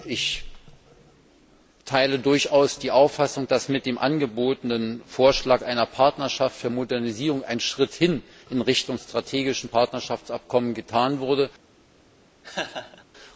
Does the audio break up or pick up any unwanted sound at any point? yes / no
yes